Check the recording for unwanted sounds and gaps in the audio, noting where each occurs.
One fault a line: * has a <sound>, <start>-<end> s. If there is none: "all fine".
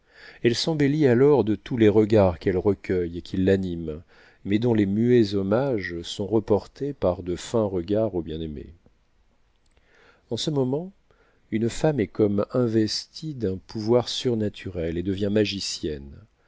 all fine